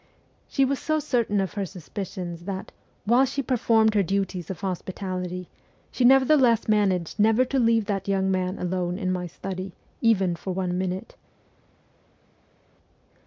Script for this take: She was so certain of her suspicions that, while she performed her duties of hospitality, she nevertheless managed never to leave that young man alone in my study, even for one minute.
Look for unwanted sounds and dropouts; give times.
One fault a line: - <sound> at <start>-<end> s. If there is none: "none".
none